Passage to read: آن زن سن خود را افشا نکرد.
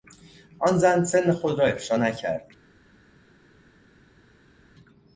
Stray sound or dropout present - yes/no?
no